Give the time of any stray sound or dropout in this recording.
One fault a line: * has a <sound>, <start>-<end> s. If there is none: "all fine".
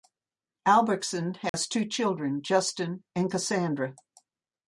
* has a dropout, 1.5-1.5 s